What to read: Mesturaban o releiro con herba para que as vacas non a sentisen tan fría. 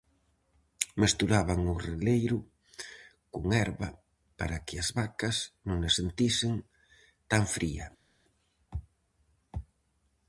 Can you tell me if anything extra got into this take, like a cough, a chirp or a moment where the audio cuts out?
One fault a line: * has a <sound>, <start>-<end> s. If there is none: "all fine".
all fine